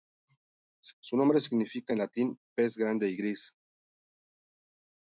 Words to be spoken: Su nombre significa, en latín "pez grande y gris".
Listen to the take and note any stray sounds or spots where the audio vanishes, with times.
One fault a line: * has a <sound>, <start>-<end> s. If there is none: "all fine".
all fine